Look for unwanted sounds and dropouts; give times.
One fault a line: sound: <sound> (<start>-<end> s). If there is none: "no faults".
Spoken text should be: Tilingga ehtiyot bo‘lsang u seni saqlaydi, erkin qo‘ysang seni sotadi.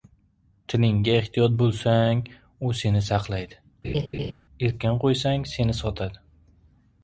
sound: laugh (3.8-4.3 s)